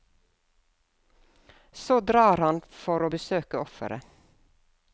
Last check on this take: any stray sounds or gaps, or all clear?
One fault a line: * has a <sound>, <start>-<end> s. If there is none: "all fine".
all fine